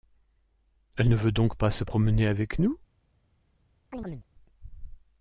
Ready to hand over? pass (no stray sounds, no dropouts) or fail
fail